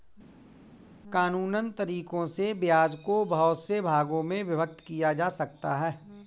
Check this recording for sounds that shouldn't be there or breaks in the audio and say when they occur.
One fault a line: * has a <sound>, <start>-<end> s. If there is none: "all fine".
all fine